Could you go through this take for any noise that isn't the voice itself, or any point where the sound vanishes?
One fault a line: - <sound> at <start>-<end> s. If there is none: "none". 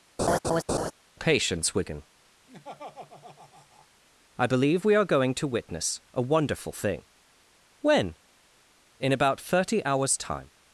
- laugh at 0.2-0.9 s
- laugh at 2.5-3.9 s